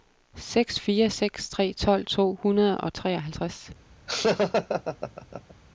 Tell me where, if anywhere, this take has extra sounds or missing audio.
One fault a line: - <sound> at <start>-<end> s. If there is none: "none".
- laugh at 4.1-5.5 s